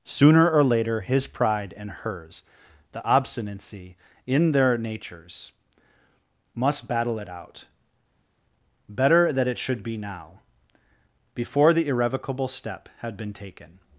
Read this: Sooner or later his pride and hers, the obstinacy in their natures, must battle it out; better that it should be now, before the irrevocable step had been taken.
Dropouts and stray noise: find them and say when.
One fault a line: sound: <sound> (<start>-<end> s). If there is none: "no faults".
no faults